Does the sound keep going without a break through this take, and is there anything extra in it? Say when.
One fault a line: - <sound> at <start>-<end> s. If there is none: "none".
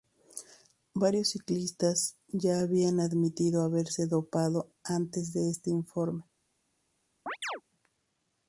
- chirp at 7.3-7.6 s